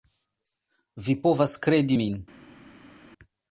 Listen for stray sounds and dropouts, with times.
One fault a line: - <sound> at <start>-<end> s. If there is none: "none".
none